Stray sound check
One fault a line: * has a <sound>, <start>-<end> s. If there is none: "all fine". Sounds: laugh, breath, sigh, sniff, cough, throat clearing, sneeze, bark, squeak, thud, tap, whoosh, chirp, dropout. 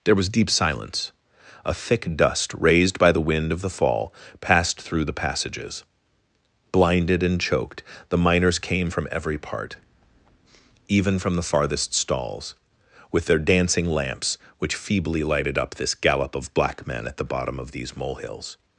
all fine